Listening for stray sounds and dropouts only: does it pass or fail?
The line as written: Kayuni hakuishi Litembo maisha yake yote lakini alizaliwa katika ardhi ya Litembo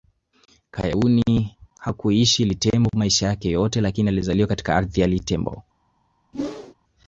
fail